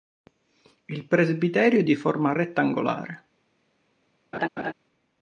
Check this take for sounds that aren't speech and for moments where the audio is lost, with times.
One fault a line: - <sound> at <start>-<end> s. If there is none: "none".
- laugh at 4.3-4.7 s